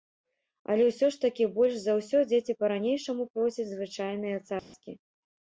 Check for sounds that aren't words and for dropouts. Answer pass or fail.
fail